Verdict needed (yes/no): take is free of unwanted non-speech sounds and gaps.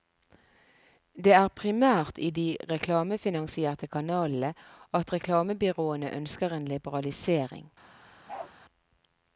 no